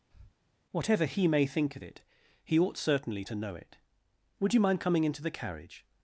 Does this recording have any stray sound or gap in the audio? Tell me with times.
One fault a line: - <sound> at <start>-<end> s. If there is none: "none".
- breath at 0.1-0.4 s